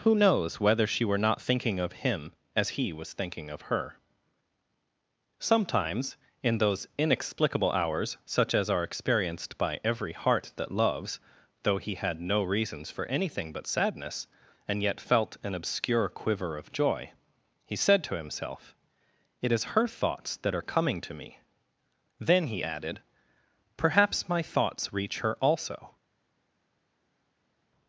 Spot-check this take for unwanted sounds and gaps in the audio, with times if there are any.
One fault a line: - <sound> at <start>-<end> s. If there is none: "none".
none